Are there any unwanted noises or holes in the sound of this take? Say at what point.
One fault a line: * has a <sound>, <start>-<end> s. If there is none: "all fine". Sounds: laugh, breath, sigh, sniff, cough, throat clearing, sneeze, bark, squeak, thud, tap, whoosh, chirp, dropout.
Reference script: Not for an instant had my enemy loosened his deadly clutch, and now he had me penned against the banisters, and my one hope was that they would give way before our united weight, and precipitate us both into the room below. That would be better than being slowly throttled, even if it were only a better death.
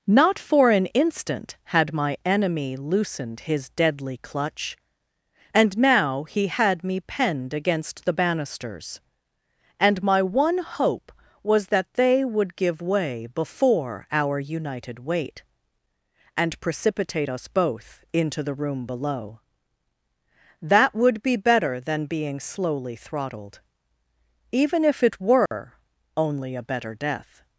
* has a dropout, 25.5-25.5 s